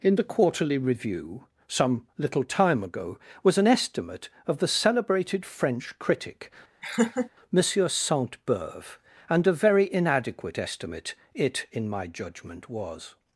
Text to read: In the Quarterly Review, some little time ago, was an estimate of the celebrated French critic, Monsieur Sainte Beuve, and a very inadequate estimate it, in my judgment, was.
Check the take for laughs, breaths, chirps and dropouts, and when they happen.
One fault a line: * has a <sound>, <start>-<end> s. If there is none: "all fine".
* has a laugh, 6.8-7.3 s